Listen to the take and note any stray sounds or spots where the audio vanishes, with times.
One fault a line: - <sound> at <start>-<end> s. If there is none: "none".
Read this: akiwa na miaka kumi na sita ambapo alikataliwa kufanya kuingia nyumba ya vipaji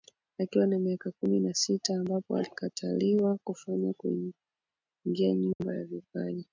- dropout at 5.5-5.6 s